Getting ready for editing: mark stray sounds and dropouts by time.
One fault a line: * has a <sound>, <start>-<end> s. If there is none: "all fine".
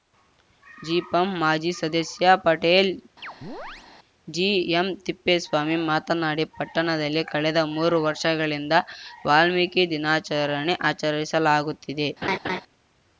* has a chirp, 3.2-3.9 s
* has a laugh, 12.2-12.6 s